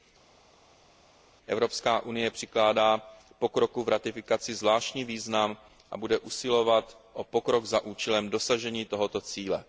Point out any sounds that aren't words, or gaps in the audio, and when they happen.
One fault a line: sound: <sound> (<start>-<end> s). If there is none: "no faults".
no faults